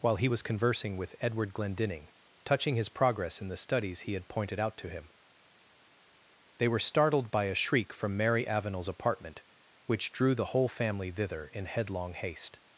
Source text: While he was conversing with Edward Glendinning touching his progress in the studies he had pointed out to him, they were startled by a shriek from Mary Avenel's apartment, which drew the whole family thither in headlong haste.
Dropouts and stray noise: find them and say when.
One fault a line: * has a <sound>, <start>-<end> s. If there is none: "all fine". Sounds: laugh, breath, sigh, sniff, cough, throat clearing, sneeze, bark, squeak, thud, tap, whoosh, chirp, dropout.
all fine